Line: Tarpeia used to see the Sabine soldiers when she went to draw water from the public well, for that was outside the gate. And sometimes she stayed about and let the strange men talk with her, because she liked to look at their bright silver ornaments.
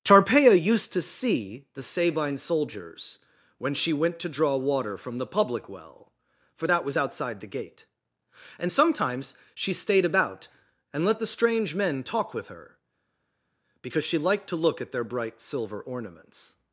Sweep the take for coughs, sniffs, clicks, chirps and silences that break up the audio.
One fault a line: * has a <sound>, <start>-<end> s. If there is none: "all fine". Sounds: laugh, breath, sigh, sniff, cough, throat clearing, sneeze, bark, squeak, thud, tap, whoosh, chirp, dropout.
all fine